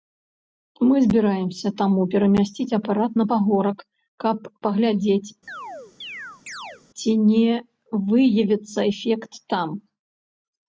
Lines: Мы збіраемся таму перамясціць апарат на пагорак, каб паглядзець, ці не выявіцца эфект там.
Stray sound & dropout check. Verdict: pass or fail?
fail